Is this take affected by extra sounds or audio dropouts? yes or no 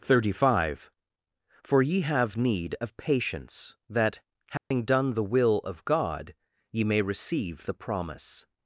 yes